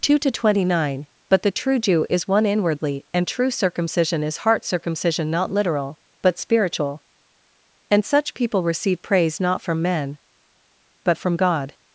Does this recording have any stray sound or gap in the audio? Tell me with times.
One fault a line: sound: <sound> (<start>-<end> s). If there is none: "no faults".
no faults